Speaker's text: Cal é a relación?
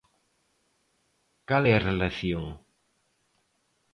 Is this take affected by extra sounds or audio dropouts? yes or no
no